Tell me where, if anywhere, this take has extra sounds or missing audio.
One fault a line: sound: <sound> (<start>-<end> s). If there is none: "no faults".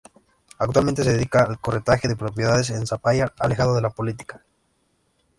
no faults